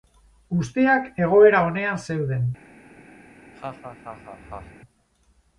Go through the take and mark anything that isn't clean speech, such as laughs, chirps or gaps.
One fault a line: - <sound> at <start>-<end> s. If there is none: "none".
- laugh at 3.2-4.8 s